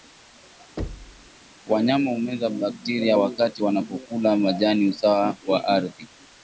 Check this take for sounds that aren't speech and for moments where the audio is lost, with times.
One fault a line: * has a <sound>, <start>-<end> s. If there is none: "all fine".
* has a thud, 0.8-1.3 s